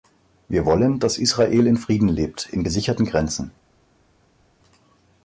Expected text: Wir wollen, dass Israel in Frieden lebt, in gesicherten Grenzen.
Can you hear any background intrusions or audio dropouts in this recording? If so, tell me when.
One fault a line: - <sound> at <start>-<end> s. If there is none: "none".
none